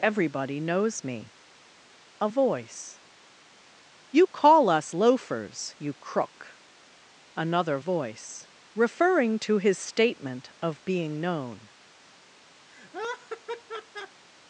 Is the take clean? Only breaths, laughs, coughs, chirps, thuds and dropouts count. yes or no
no